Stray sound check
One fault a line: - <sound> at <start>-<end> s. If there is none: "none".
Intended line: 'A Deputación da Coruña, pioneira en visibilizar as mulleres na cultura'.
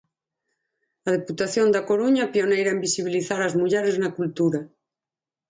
none